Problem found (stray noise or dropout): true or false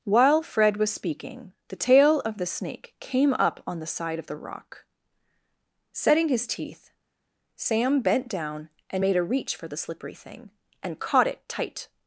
false